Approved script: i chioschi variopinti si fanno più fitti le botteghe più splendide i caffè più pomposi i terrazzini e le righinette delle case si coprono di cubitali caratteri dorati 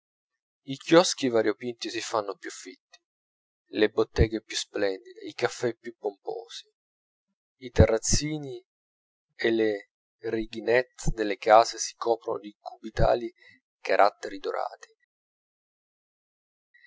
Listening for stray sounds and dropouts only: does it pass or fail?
pass